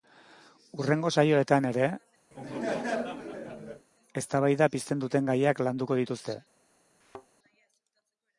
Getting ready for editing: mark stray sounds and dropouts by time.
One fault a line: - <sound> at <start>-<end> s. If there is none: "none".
- laugh at 2.3-3.9 s
- thud at 7.0-7.3 s